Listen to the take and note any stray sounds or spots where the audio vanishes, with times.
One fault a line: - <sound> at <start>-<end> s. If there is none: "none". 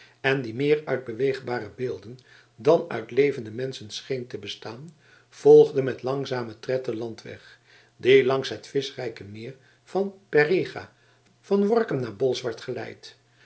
none